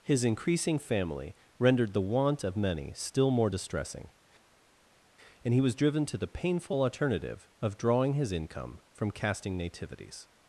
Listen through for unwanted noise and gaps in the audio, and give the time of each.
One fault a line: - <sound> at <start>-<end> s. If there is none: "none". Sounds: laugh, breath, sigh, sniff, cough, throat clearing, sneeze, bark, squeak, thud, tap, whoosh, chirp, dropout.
none